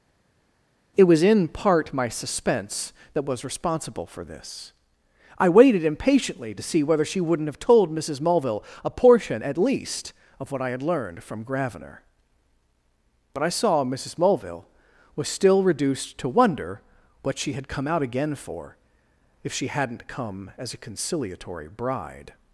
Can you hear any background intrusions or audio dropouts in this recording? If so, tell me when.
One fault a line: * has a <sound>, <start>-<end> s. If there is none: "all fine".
all fine